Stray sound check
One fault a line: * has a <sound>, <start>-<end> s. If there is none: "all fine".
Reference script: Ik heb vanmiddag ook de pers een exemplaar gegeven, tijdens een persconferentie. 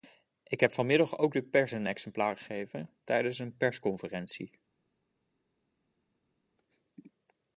all fine